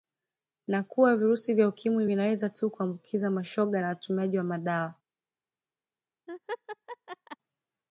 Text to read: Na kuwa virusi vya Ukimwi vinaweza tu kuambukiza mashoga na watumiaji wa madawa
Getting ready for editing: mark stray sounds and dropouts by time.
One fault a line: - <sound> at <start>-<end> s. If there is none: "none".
- laugh at 6.3-7.4 s